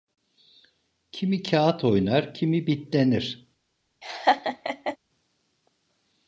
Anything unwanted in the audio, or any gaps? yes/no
yes